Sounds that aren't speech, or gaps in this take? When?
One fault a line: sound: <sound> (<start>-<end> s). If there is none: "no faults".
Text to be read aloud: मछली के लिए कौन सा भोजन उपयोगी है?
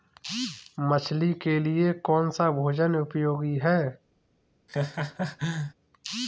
sound: laugh (4.7-5.7 s)